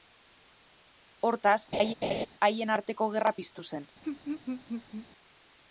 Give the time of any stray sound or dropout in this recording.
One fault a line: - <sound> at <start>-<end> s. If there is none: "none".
- laugh at 1.7-2.3 s
- laugh at 4.0-5.1 s